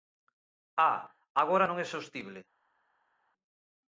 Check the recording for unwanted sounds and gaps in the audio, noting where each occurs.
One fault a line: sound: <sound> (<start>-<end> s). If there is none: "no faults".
no faults